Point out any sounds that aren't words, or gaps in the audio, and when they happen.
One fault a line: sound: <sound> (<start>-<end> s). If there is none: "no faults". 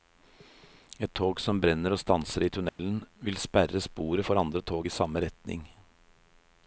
sound: dropout (2.7-2.8 s)